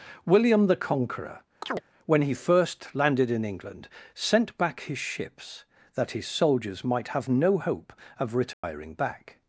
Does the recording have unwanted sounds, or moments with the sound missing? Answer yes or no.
yes